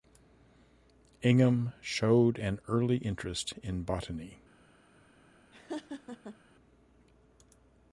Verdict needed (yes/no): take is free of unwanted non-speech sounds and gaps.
no